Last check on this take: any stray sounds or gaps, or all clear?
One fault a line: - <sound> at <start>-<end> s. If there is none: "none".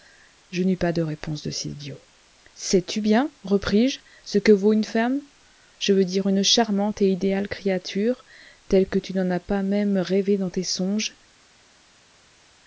none